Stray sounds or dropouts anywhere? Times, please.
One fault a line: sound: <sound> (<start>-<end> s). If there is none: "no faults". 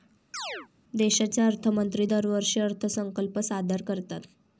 sound: chirp (0.3-0.7 s)